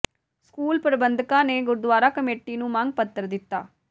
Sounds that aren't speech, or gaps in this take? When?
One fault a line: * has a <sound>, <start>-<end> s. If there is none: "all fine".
all fine